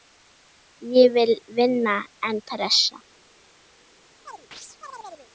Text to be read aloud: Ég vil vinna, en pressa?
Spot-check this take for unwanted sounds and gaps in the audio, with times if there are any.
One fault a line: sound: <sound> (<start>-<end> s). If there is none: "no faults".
sound: chirp (4.3-5.3 s)